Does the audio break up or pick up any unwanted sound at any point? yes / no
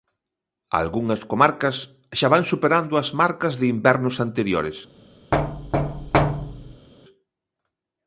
yes